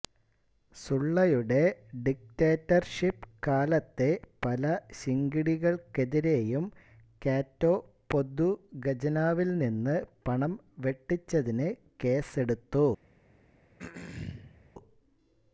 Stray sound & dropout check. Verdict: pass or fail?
fail